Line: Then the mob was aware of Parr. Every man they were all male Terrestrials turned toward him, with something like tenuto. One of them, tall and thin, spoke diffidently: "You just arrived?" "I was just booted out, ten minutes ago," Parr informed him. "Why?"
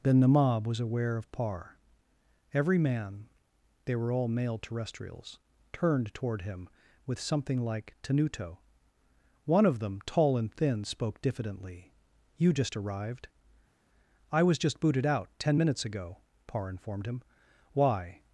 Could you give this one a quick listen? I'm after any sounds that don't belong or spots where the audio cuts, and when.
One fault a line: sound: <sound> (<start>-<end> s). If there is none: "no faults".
no faults